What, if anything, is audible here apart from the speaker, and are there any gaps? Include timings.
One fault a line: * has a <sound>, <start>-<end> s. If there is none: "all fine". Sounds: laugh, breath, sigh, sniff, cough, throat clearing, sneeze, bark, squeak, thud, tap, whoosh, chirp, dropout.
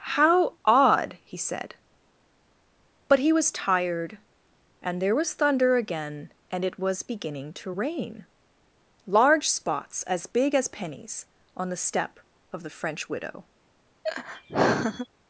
* has a laugh, 14.0-15.1 s